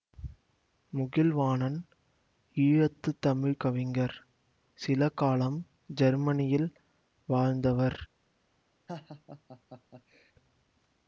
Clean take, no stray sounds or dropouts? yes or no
no